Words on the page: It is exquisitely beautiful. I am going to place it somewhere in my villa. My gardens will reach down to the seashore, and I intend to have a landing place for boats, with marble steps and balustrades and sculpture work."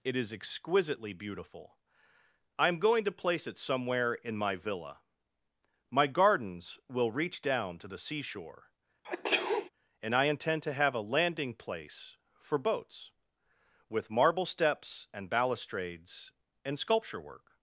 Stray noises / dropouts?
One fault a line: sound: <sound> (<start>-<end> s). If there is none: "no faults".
sound: sneeze (9.0-9.7 s)